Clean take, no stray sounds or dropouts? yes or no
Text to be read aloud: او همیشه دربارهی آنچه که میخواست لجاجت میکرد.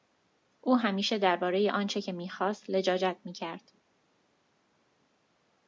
yes